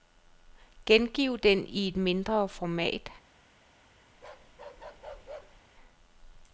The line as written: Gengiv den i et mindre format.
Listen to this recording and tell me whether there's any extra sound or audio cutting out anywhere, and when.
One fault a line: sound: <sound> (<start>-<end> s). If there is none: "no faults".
sound: bark (4.1-5.6 s)